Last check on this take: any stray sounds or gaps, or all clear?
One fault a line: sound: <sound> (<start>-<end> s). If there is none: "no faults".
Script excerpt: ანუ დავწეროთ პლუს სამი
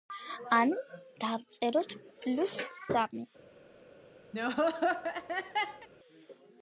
sound: laugh (4.3-5.9 s)